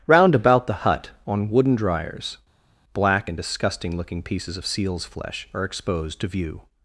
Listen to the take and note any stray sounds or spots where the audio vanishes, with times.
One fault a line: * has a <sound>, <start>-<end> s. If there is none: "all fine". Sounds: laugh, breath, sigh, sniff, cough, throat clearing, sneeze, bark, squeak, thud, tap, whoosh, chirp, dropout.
all fine